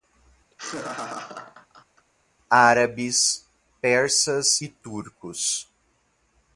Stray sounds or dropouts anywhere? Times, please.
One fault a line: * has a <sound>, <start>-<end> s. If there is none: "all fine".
* has a laugh, 0.5-2.1 s